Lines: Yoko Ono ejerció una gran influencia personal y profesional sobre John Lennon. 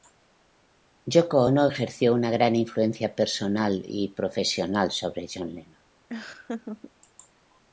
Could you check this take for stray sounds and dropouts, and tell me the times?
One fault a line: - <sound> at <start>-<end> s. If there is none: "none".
- laugh at 6.1-6.9 s